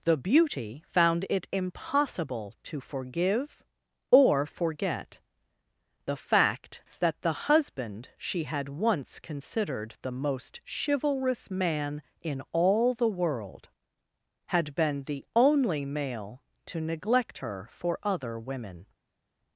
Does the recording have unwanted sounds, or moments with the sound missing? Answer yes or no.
no